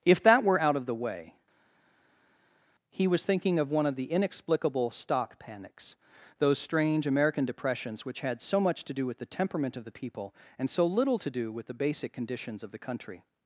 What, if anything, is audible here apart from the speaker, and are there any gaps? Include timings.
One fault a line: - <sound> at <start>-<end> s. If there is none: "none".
none